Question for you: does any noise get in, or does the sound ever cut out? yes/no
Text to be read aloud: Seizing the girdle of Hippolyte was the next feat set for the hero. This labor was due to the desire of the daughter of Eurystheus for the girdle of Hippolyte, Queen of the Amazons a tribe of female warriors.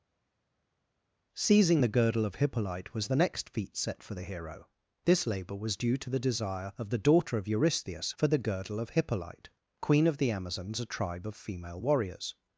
no